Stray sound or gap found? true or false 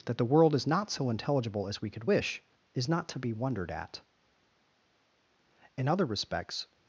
false